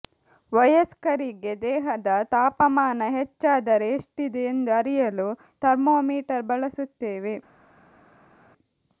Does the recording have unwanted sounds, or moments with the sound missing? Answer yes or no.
no